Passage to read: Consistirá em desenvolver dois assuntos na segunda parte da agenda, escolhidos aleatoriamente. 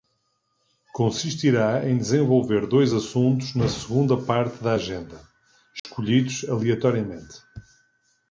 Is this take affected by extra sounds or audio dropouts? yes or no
yes